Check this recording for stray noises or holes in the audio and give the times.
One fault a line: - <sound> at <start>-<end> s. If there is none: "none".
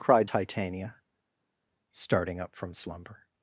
none